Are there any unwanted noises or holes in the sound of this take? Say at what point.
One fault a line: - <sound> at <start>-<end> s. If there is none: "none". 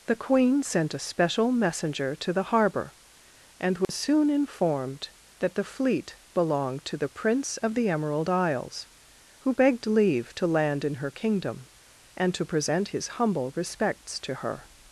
- dropout at 3.8-3.9 s